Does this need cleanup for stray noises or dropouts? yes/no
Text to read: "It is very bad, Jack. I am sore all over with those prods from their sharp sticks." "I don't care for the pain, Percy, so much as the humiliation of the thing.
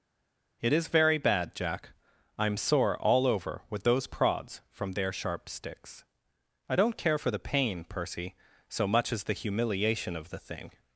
no